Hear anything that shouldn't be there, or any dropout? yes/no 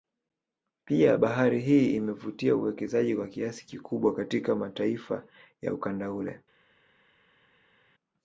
no